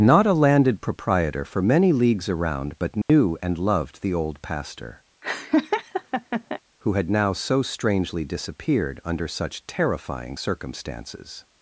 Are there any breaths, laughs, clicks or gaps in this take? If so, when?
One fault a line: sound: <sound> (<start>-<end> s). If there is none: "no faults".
sound: dropout (3.0-3.1 s)
sound: laugh (5.2-6.6 s)